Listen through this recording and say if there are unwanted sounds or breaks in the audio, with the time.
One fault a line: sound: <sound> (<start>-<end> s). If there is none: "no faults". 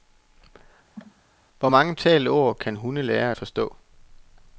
sound: cough (1.0-1.2 s)